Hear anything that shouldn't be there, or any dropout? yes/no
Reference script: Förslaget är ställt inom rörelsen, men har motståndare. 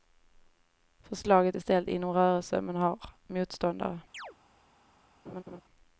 yes